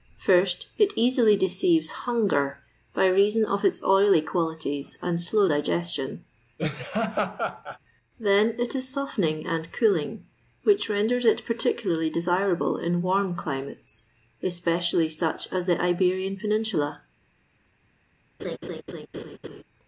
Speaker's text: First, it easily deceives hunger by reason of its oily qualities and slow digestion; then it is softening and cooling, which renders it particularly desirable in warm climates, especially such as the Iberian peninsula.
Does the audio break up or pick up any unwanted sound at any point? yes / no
yes